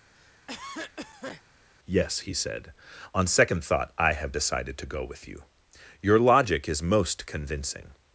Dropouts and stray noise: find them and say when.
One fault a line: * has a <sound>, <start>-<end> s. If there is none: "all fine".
* has a cough, 0.1-1.4 s